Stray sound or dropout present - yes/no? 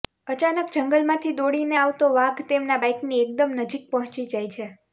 no